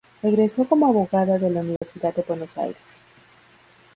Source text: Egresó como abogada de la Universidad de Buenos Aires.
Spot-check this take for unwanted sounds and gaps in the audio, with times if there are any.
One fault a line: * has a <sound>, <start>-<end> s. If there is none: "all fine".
* has a dropout, 1.8-1.8 s